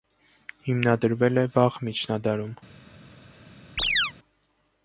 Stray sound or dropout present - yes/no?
yes